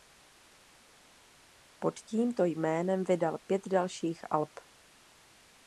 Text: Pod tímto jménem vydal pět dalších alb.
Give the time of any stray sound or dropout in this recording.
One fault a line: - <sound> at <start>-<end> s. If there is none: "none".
none